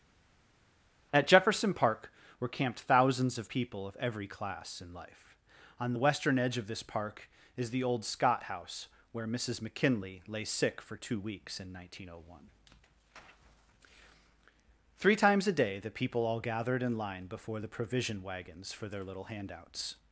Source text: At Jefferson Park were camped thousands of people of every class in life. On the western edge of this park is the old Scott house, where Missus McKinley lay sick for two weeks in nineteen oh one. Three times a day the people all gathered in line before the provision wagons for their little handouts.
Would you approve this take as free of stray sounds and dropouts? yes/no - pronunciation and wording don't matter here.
yes